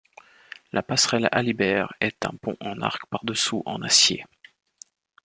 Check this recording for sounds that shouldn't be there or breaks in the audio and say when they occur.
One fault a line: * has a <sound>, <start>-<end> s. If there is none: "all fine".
all fine